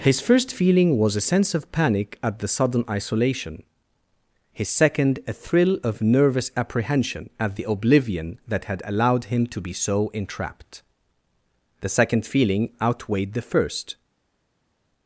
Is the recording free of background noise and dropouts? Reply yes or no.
yes